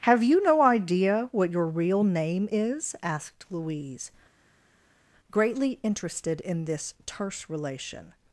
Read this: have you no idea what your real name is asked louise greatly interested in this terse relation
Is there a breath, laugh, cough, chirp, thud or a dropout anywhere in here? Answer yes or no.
no